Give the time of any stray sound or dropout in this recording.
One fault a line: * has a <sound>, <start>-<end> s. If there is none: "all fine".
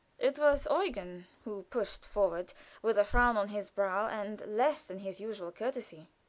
all fine